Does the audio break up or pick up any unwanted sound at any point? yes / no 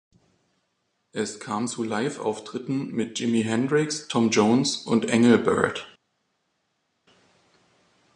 no